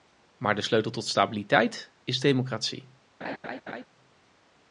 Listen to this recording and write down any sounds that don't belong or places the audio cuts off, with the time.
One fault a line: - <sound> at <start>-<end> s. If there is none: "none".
- laugh at 3.2-3.9 s